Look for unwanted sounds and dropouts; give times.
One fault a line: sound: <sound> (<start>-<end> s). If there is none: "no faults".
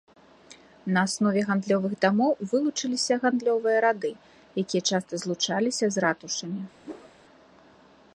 sound: whoosh (6.8-7.1 s)